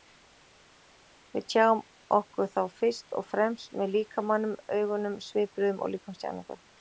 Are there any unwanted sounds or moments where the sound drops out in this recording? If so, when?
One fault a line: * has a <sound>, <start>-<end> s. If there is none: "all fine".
all fine